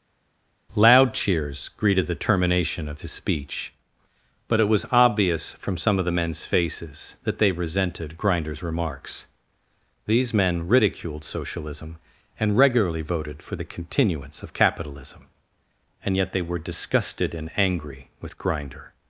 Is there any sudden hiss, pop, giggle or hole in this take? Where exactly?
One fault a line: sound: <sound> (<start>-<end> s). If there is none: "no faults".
no faults